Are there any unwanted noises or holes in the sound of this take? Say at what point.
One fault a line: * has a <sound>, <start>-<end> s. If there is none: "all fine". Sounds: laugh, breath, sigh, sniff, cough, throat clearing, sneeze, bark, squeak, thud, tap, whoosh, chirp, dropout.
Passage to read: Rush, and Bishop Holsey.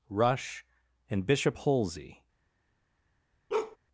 * has a bark, 3.5-3.8 s